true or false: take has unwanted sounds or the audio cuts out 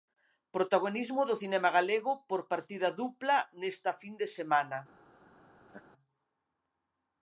true